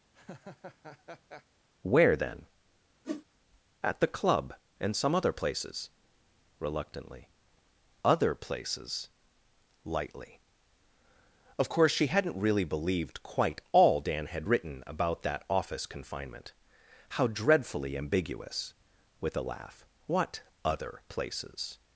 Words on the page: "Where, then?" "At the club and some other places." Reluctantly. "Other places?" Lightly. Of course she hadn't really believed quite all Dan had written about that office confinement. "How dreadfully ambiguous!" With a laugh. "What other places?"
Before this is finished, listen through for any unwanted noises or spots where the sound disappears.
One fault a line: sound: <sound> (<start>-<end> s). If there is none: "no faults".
sound: laugh (0.1-1.5 s)
sound: whoosh (3.0-3.2 s)